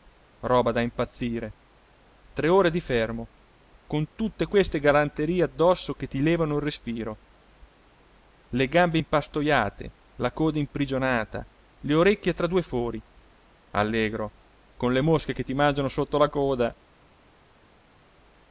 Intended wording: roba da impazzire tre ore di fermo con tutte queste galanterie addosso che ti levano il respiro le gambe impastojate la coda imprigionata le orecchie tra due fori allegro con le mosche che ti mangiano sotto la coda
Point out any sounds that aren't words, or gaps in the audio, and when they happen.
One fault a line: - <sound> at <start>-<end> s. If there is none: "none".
none